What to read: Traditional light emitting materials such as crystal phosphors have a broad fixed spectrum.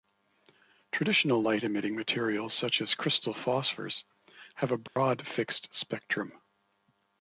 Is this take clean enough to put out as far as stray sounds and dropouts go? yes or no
no